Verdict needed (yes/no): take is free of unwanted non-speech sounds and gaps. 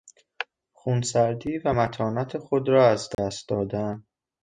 no